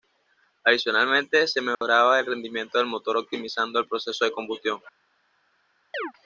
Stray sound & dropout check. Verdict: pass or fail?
fail